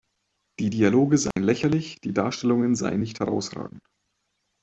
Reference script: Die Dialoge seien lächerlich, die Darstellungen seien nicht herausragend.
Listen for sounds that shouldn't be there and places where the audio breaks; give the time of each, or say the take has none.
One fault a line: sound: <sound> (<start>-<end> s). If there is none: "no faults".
sound: dropout (1.3-1.4 s)